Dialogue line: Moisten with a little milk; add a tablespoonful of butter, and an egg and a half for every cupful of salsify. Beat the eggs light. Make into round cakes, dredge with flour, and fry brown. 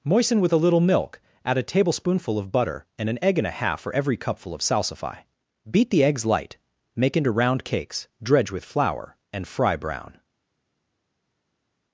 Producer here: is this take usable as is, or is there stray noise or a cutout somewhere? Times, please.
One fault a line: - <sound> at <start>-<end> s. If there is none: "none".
none